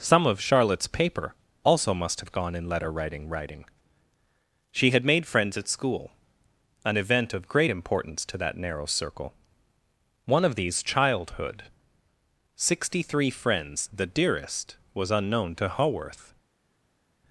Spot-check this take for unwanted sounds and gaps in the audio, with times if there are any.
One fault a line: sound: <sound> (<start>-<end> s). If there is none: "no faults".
no faults